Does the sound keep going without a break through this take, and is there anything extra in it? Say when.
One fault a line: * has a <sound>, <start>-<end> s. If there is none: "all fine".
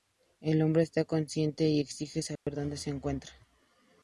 * has a dropout, 2.4-2.5 s